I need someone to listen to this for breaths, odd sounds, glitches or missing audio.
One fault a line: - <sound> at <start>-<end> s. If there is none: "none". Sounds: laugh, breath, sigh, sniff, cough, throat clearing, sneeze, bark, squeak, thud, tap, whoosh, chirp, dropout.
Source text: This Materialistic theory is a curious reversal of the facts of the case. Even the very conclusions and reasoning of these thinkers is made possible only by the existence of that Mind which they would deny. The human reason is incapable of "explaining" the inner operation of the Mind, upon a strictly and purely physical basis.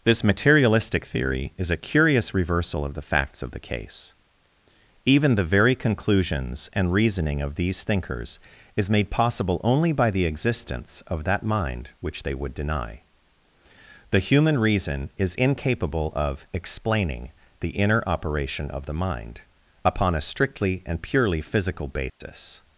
- dropout at 22.1-22.2 s